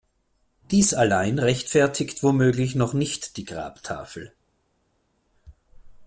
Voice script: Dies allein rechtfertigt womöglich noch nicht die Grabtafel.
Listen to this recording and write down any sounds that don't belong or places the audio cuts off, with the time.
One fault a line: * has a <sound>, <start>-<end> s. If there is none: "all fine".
all fine